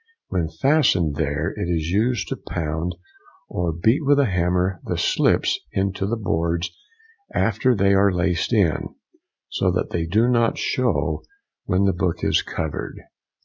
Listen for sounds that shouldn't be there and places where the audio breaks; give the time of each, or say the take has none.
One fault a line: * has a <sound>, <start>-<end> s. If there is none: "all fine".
all fine